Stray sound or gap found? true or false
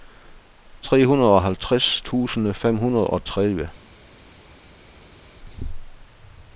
false